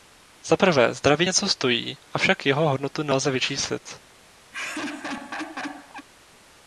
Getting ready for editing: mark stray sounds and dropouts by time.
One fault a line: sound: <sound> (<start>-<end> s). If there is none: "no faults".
sound: laugh (4.5-6.1 s)